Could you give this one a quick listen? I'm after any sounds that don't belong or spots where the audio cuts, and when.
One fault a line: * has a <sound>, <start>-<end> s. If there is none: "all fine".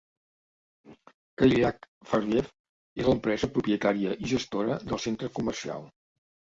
all fine